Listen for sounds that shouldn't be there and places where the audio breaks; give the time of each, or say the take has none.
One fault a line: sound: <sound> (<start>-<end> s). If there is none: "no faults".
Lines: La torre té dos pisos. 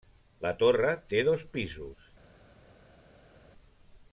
no faults